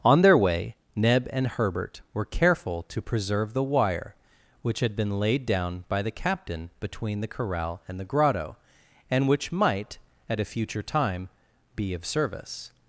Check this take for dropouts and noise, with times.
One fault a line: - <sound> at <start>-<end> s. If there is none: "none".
none